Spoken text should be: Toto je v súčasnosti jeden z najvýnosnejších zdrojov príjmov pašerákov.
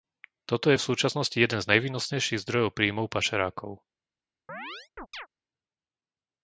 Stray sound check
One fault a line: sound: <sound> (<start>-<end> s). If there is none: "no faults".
sound: chirp (4.5-5.3 s)